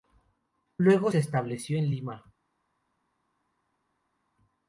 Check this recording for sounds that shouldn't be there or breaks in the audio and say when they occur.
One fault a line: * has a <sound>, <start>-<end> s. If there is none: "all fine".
all fine